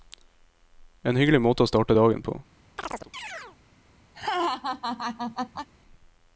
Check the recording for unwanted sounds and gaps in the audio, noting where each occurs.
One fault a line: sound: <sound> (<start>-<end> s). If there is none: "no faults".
sound: chirp (2.8-3.6 s)
sound: laugh (4.1-5.7 s)